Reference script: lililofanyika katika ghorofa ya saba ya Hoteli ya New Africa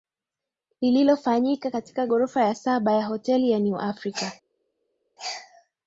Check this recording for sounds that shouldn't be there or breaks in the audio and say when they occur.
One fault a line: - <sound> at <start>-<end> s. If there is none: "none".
none